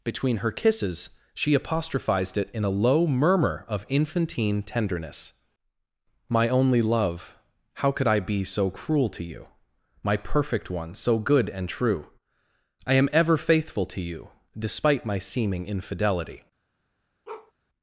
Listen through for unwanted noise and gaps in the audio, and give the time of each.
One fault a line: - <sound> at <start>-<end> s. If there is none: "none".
- bark at 17.3-17.5 s